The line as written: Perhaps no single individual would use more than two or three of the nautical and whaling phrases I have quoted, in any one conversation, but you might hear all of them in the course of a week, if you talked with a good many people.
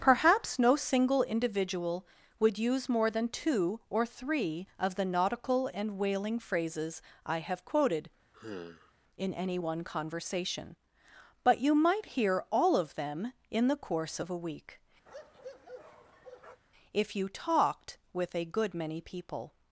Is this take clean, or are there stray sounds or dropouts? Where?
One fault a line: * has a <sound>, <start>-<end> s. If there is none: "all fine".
* has a sigh, 8.3-8.9 s
* has a bark, 15.1-16.6 s